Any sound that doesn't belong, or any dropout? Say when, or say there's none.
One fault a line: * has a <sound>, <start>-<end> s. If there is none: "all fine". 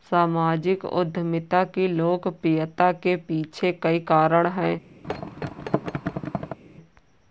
* has a thud, 5.0-6.6 s